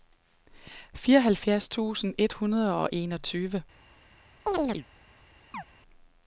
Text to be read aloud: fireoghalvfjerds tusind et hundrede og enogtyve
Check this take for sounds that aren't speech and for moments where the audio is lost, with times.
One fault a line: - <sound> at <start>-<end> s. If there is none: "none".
- chirp at 4.5-4.9 s
- chirp at 5.5-5.6 s